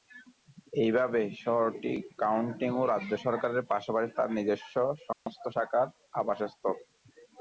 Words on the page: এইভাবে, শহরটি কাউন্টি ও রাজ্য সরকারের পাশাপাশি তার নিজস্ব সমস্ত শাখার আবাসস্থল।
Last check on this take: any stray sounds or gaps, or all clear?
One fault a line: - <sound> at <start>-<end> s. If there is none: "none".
- dropout at 5.1-5.3 s